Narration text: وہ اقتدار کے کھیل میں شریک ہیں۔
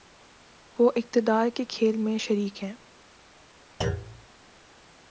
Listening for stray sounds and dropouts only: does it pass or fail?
fail